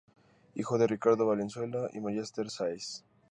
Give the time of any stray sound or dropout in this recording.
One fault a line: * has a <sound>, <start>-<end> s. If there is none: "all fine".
all fine